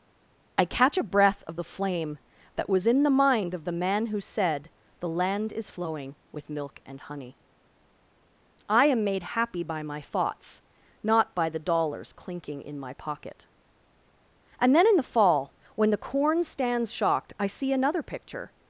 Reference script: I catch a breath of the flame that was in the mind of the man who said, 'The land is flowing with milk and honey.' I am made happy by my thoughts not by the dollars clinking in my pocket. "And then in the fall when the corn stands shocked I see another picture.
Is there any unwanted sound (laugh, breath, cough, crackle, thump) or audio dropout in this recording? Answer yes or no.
no